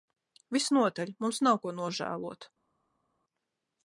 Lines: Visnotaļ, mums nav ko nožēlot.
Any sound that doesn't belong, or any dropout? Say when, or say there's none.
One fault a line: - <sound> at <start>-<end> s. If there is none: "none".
none